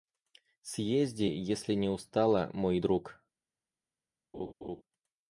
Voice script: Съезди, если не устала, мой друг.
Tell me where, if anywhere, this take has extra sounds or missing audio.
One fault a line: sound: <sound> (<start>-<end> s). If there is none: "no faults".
sound: laugh (4.3-4.8 s)